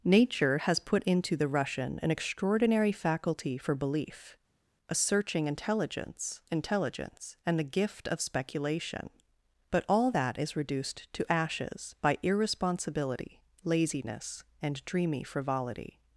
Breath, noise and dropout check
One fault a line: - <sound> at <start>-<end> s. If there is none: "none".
none